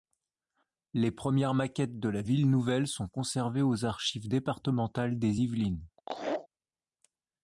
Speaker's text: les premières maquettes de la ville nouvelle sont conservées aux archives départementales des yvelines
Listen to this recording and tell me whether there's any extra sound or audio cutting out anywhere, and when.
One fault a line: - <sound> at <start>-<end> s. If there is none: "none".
- laugh at 6.0-6.5 s